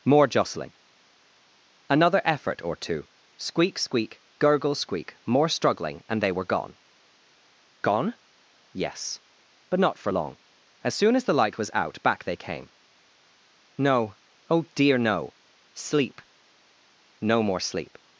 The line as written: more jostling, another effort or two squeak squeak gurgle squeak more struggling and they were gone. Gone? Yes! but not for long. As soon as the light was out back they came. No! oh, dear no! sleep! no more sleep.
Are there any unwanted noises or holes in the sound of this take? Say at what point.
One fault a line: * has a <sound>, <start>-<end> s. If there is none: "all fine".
all fine